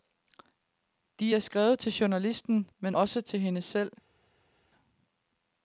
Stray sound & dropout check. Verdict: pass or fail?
pass